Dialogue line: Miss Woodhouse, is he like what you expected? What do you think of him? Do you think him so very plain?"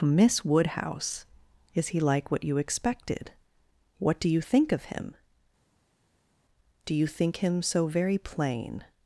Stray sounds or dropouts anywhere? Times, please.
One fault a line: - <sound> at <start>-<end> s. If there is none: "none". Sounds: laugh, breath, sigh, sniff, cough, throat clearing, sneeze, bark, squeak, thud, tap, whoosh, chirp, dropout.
none